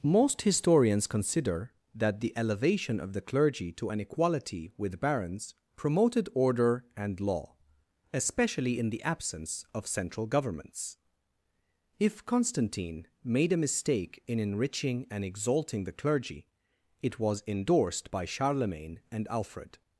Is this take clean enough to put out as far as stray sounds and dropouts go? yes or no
yes